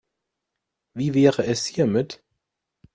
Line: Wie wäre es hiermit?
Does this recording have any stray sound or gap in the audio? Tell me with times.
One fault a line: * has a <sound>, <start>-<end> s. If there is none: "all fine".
all fine